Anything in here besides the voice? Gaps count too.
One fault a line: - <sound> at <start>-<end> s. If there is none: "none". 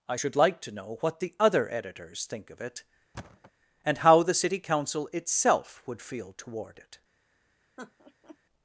- thud at 3.1-3.5 s
- laugh at 7.8-8.4 s